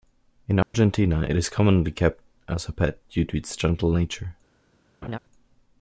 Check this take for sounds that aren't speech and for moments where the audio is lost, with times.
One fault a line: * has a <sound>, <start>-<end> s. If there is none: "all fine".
* has a dropout, 0.6-0.7 s
* has a laugh, 5.0-5.2 s